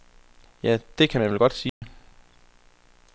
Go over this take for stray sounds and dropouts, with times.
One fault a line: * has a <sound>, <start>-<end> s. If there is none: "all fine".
* has a dropout, 1.7-1.8 s